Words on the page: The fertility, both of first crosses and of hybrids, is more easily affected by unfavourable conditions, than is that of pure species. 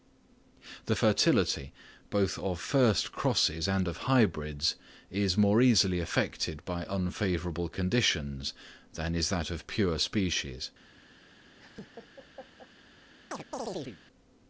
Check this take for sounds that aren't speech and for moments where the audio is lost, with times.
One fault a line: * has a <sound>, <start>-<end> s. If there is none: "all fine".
* has a laugh, 11.6-12.7 s
* has a chirp, 13.3-14.0 s